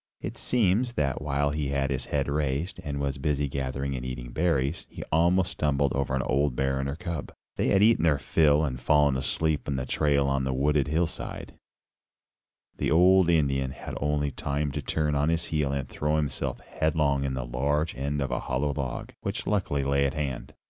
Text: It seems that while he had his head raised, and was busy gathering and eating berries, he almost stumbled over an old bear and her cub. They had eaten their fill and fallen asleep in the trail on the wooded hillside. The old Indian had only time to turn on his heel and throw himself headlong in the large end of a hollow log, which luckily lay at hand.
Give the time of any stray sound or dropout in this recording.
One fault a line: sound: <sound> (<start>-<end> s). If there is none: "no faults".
no faults